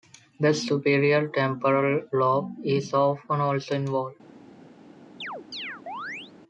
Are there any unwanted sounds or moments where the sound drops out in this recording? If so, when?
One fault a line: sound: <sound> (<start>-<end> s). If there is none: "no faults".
sound: chirp (5.2-6.3 s)